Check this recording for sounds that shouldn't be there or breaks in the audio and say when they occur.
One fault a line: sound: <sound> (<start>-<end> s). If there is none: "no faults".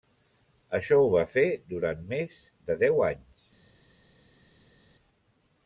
no faults